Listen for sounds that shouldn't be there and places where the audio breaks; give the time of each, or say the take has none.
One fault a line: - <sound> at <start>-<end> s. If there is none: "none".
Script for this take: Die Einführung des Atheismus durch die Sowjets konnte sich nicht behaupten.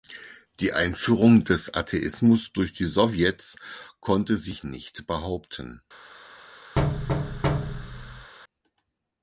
- thud at 6.8-8.3 s